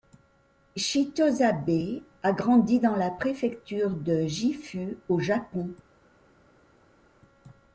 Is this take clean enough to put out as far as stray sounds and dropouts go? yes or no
yes